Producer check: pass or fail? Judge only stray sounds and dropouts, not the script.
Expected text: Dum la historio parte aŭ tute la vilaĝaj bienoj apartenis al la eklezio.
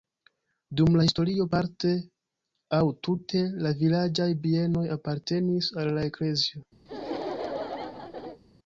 fail